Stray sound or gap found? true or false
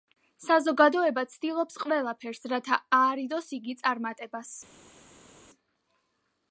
false